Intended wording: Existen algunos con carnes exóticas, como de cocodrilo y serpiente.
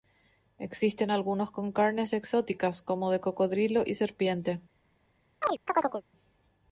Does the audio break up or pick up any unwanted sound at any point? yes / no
yes